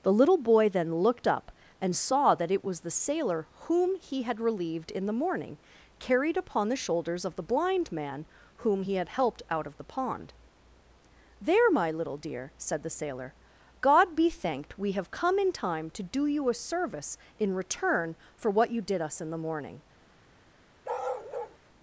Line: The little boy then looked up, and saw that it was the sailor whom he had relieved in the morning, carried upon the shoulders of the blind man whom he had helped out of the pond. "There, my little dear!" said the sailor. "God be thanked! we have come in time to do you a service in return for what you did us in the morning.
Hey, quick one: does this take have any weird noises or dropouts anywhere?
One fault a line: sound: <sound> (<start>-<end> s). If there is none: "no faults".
sound: bark (20.8-21.6 s)